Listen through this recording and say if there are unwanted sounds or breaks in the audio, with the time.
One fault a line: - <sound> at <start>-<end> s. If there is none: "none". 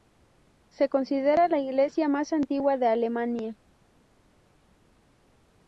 none